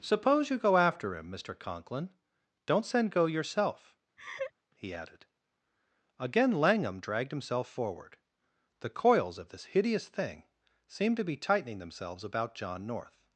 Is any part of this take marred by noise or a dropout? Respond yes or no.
yes